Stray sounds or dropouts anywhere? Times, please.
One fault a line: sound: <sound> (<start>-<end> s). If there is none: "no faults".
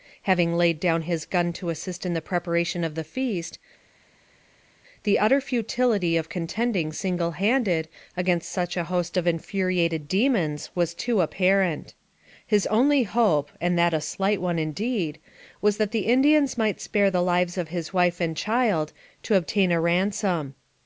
no faults